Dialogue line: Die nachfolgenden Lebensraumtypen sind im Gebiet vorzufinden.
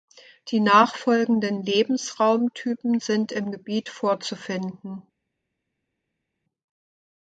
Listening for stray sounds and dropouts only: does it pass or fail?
pass